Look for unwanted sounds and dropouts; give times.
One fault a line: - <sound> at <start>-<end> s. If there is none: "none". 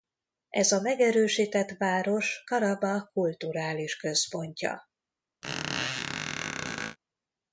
- squeak at 5.4-7.0 s